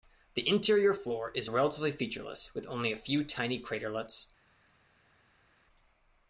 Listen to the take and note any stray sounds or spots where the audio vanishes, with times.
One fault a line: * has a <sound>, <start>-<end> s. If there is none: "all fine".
all fine